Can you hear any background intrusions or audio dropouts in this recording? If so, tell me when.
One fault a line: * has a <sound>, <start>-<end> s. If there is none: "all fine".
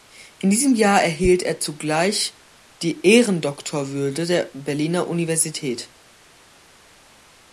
all fine